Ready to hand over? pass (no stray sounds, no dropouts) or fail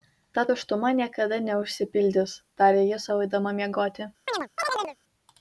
fail